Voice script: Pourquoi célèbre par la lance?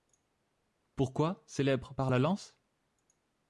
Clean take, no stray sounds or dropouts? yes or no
yes